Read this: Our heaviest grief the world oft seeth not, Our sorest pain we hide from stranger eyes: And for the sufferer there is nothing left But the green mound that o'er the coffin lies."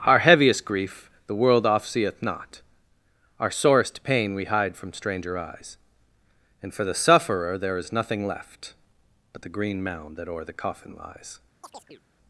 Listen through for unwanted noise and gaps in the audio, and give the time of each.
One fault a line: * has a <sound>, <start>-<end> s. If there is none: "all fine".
* has a chirp, 11.6-12.0 s